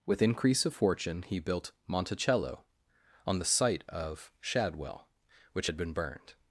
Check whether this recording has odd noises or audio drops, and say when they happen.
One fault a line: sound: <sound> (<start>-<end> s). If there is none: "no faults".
no faults